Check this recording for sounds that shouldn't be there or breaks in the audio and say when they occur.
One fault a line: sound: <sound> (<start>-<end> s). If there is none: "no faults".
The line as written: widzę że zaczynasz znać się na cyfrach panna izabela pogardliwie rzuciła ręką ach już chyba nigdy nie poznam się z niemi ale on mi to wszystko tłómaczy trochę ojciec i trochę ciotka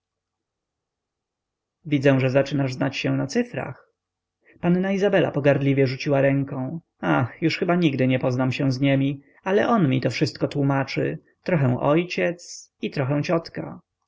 no faults